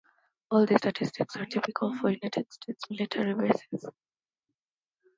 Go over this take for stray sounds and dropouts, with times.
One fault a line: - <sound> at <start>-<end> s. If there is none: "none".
none